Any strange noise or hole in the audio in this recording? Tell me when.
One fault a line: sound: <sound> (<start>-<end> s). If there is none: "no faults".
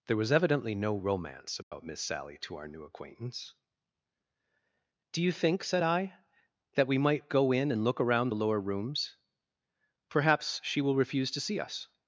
sound: dropout (1.6-1.7 s)